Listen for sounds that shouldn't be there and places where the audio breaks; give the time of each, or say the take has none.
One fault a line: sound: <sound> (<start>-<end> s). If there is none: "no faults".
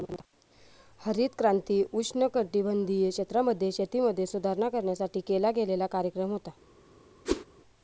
sound: whoosh (7.3-7.5 s)